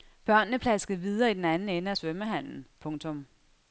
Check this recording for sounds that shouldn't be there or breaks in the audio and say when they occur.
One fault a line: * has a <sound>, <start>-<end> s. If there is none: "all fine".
all fine